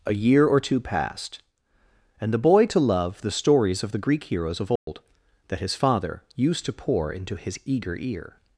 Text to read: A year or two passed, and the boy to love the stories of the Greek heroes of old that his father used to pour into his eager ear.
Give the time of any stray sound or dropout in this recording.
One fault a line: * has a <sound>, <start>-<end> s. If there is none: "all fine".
* has a dropout, 4.8-4.9 s